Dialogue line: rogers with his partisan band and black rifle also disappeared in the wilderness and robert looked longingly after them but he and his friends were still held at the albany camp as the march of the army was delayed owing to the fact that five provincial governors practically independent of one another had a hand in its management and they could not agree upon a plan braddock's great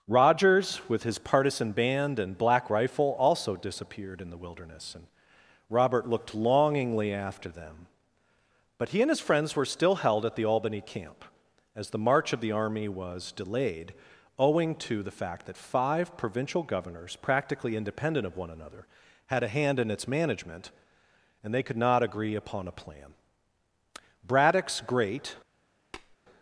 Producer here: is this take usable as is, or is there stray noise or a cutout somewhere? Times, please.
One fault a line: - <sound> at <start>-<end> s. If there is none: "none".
- tap at 25.9-26.2 s